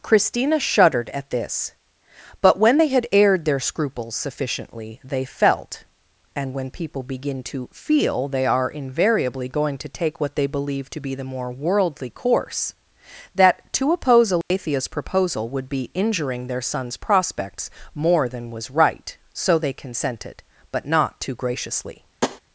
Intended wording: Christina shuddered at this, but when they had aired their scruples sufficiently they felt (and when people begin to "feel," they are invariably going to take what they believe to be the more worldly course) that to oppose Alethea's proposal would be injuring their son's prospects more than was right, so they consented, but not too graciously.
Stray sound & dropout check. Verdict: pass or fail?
fail